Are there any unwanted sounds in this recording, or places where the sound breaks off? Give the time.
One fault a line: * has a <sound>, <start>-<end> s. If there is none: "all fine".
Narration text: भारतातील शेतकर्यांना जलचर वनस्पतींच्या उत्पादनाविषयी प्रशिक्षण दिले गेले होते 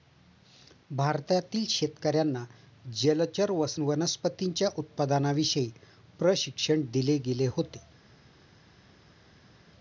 all fine